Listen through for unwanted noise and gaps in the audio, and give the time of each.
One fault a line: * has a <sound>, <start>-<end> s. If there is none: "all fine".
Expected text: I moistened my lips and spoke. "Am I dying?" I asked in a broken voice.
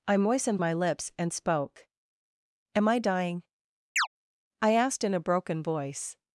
* has a chirp, 4.0-4.1 s